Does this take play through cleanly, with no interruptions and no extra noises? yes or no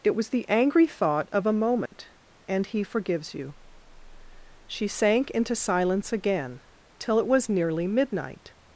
no